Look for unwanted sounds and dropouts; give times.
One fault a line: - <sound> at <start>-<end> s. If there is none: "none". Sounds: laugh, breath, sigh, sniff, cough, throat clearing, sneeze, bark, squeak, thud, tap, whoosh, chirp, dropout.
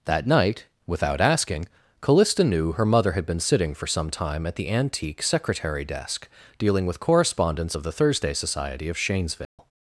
- dropout at 9.4-9.6 s